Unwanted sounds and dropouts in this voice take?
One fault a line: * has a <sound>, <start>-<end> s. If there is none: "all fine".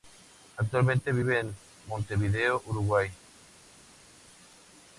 all fine